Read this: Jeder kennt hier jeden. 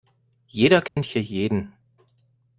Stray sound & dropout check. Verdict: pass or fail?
fail